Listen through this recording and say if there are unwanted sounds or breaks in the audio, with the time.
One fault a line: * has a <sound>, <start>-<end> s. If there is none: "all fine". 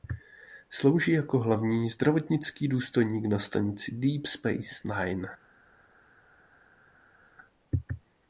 all fine